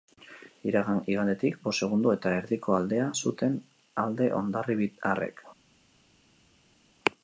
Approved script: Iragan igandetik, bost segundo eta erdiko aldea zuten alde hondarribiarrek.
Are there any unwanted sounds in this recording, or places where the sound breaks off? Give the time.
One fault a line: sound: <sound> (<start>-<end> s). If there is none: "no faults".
no faults